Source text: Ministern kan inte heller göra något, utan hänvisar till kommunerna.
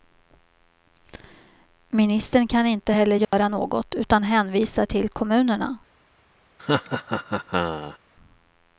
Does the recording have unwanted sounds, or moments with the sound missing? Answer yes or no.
yes